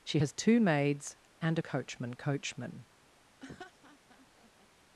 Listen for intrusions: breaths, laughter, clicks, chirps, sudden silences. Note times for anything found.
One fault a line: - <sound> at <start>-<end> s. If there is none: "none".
- laugh at 3.4-4.7 s